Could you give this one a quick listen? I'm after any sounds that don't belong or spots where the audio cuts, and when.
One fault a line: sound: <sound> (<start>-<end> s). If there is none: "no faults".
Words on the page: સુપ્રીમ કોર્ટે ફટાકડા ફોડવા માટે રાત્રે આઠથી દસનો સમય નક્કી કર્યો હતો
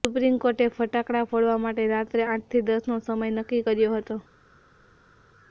no faults